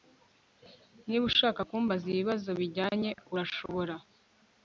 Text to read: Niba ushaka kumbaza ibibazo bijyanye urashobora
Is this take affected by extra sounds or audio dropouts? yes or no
yes